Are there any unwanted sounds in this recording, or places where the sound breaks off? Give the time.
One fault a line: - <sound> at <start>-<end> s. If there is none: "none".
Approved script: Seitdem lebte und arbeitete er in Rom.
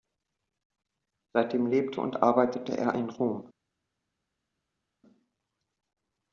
none